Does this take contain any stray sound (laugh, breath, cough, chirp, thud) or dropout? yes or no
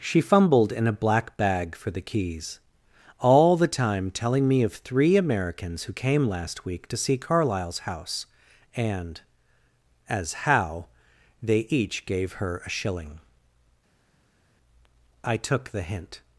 no